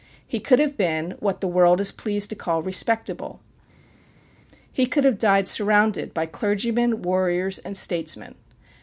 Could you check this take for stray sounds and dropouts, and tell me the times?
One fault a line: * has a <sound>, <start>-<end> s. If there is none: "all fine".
all fine